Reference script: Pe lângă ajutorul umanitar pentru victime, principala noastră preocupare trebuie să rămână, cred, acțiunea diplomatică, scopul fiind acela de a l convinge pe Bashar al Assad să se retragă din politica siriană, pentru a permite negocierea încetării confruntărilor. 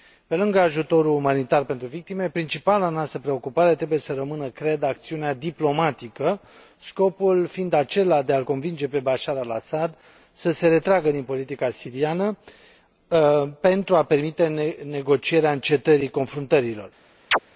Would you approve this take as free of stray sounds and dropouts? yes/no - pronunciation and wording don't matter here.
no